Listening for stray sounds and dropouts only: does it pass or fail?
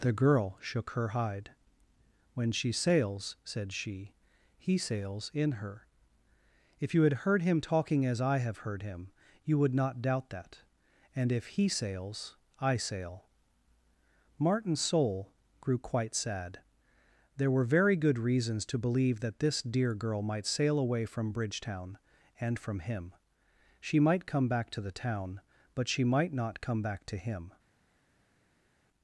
pass